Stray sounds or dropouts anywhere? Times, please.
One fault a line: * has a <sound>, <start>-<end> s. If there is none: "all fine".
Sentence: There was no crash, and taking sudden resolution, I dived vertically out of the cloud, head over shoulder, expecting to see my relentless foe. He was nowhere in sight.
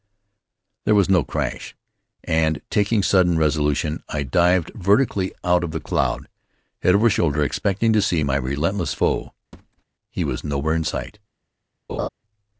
* has a thud, 9.5-9.8 s
* has a laugh, 11.9-12.1 s